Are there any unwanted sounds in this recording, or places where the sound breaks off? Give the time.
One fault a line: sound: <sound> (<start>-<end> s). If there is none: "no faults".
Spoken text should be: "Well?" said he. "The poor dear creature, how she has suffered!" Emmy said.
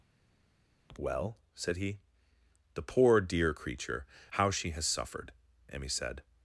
no faults